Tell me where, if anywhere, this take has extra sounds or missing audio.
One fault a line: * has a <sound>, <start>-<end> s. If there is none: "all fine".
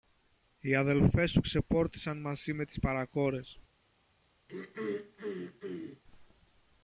* has a throat clearing, 4.5-6.0 s